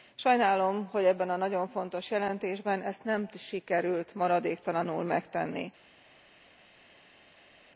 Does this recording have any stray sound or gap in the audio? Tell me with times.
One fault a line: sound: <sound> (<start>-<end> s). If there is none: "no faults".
no faults